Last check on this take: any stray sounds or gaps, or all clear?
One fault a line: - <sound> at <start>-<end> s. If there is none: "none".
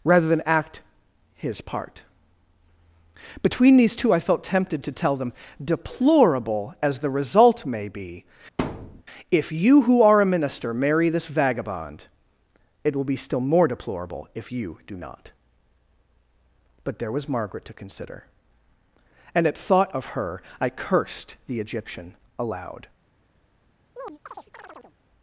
- thud at 8.6-9.0 s
- chirp at 24.0-25.0 s